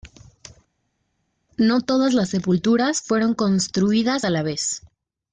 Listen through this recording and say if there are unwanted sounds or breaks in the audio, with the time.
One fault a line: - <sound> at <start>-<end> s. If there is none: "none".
none